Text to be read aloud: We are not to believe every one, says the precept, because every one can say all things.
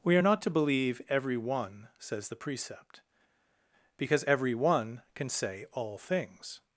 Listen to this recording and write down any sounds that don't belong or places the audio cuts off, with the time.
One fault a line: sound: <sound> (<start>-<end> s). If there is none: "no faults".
no faults